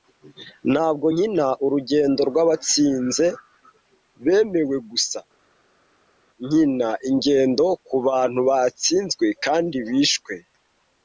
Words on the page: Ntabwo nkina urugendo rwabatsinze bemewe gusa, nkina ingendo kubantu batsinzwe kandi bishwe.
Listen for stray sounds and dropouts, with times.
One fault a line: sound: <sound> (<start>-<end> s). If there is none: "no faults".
no faults